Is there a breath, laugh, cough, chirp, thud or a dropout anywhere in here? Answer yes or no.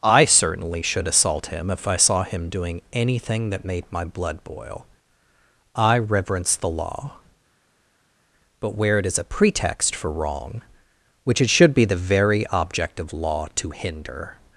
no